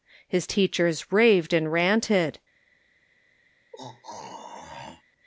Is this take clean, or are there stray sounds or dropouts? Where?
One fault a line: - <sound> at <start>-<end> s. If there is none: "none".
- throat clearing at 3.7-5.0 s